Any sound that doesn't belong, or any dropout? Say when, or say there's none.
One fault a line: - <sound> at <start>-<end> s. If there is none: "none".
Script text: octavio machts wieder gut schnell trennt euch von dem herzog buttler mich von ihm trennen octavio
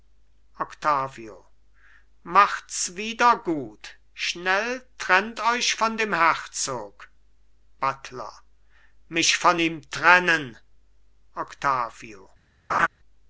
- laugh at 12.7-12.9 s